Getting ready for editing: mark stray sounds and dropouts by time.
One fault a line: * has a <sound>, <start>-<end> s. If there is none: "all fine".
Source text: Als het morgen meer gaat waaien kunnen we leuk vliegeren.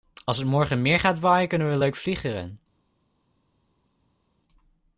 all fine